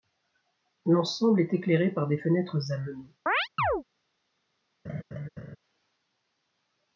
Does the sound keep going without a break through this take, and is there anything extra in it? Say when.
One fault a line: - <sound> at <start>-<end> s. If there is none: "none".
- chirp at 3.3-3.8 s
- laugh at 4.8-5.6 s